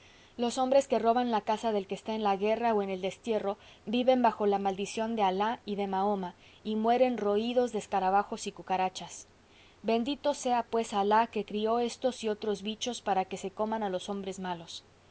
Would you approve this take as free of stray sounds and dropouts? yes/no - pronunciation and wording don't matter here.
yes